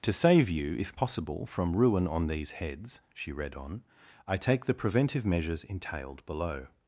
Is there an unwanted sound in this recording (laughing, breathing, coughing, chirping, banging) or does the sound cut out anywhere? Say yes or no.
no